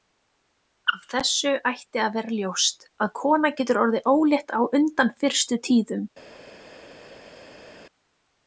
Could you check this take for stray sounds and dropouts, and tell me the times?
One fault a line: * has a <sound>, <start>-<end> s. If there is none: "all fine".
all fine